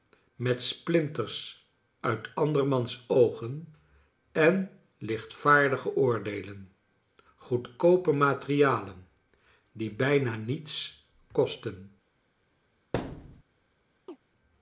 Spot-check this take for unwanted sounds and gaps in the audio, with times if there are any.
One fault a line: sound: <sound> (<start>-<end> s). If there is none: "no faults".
sound: thud (12.9-13.4 s)
sound: chirp (14.1-14.2 s)